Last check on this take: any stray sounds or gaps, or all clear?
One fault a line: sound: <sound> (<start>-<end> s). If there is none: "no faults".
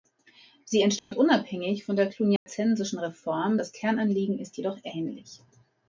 sound: dropout (1.0-1.1 s)
sound: dropout (2.4-2.5 s)